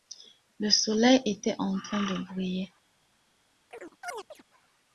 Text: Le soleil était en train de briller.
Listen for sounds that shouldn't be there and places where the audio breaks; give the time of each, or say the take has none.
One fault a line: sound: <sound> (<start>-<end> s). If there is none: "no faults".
sound: chirp (3.7-4.4 s)